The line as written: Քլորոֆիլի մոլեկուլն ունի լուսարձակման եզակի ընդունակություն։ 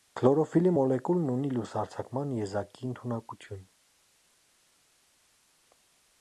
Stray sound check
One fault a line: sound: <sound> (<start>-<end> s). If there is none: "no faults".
no faults